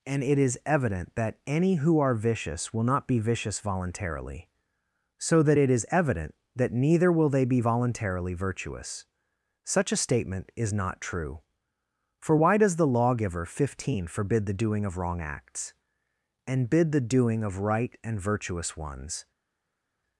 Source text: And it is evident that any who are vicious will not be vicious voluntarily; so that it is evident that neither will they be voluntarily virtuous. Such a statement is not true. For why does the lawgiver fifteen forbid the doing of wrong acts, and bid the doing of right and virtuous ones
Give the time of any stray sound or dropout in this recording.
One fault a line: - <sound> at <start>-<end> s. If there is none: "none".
none